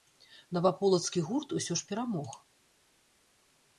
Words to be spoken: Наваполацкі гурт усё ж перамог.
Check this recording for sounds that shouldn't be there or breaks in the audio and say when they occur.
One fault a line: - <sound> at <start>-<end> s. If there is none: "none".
none